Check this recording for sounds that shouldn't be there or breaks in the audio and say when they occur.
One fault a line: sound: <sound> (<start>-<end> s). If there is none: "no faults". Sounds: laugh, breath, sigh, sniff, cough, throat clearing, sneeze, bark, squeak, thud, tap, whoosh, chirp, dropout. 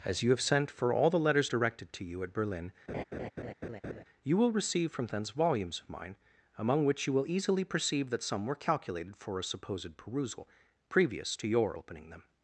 sound: laugh (2.9-4.0 s)